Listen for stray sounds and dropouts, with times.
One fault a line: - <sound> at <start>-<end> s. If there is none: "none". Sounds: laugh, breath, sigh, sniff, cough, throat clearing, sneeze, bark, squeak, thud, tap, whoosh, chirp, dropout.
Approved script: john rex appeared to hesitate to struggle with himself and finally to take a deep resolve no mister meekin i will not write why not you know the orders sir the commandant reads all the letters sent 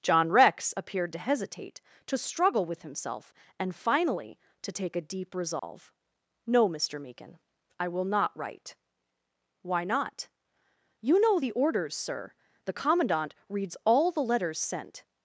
- dropout at 5.6-5.6 s